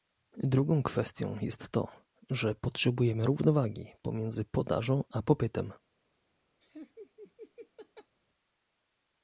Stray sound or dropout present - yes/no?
yes